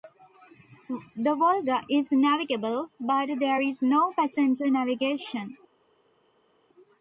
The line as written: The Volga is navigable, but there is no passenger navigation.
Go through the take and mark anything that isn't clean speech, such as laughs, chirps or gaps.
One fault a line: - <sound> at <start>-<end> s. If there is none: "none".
none